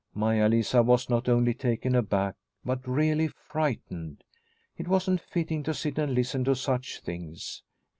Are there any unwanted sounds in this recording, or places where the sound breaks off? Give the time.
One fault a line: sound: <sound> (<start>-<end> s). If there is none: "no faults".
no faults